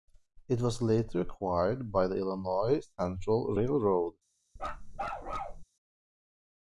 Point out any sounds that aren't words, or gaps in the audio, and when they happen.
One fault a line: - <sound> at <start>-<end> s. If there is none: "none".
- bark at 4.6-5.6 s